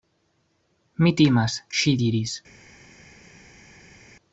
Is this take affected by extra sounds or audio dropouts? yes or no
no